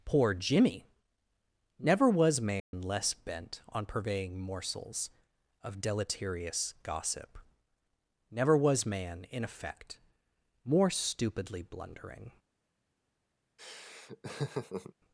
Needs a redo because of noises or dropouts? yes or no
yes